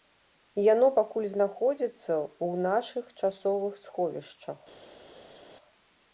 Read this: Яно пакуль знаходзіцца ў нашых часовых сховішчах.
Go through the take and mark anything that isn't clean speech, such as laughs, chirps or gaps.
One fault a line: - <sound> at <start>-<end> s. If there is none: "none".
none